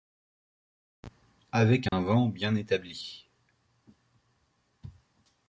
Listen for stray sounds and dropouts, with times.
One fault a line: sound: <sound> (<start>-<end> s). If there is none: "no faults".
sound: dropout (1.9-1.9 s)